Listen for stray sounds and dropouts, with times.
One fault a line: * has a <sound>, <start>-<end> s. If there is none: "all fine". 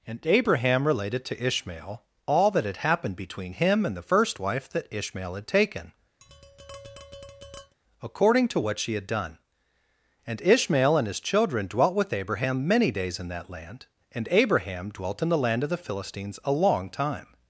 * has a tap, 6.2-7.8 s